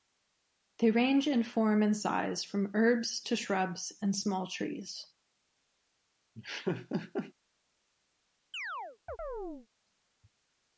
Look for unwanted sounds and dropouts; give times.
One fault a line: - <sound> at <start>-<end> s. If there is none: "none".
- laugh at 6.3-7.3 s
- chirp at 8.5-9.7 s